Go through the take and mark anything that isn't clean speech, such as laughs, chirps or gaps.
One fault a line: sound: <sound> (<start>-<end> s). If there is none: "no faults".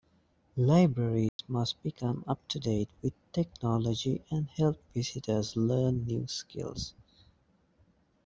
sound: dropout (1.3-1.4 s)